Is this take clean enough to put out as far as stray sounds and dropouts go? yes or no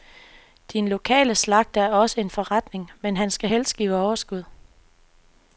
yes